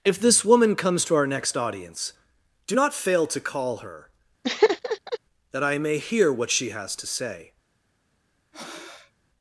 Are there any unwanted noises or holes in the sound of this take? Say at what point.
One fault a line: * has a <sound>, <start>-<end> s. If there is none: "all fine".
* has a laugh, 4.4-5.2 s
* has a breath, 8.5-9.1 s